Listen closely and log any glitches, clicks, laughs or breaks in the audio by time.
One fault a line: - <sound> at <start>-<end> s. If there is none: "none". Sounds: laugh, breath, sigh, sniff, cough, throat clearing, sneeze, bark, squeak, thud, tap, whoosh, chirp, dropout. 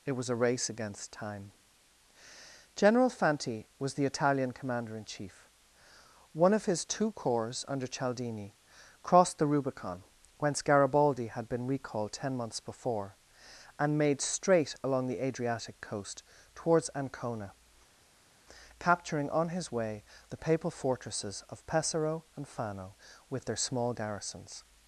none